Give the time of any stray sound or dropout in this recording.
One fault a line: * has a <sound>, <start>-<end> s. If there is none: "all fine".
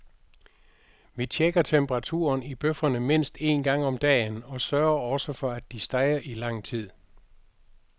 all fine